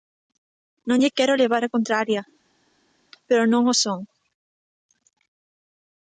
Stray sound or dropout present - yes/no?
no